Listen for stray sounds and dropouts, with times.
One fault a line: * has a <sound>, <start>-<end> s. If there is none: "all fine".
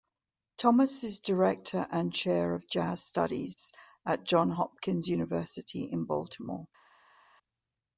all fine